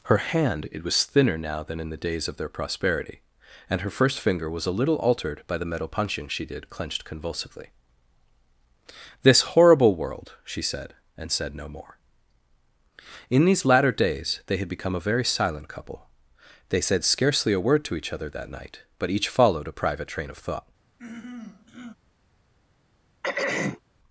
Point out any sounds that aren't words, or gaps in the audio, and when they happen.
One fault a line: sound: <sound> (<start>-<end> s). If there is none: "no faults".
sound: throat clearing (21.0-21.9 s)
sound: throat clearing (23.2-23.8 s)